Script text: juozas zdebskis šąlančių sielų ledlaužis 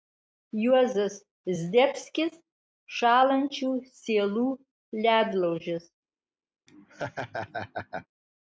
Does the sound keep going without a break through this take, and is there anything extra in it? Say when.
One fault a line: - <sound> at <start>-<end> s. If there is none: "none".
- laugh at 6.7-8.1 s